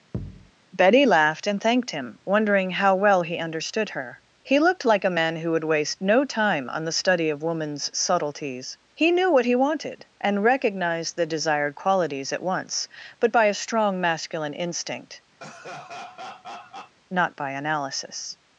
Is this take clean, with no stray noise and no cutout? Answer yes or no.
no